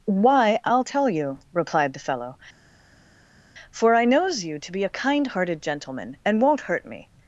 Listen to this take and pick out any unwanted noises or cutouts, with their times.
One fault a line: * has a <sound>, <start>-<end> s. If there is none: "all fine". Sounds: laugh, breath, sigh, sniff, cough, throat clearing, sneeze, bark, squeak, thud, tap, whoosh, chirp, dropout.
all fine